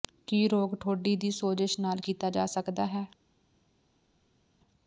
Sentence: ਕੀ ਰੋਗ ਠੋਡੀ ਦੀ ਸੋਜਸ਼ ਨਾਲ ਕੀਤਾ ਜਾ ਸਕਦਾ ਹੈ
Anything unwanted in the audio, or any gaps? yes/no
no